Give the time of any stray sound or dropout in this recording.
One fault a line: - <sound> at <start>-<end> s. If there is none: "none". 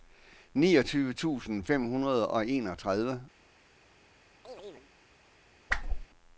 - chirp at 4.4-4.9 s
- whoosh at 5.7-6.1 s